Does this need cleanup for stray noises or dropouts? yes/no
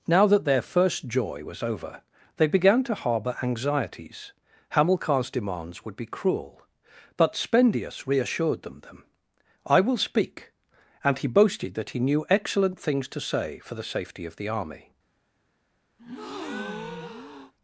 yes